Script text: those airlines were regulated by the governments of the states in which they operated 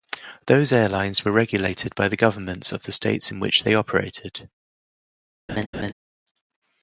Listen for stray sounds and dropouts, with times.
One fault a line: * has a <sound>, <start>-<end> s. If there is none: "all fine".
* has a laugh, 5.5-5.9 s